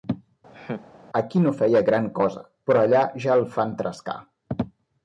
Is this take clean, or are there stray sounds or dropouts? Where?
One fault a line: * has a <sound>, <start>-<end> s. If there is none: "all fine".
* has a laugh, 0.5-0.9 s